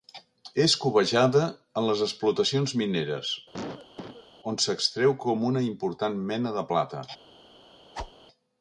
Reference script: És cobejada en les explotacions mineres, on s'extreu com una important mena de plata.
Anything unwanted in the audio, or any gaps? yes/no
yes